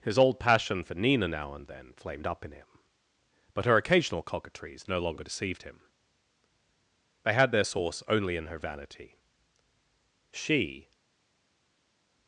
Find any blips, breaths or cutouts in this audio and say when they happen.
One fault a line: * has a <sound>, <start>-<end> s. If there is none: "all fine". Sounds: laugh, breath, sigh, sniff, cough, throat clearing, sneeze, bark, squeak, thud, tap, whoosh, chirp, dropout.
all fine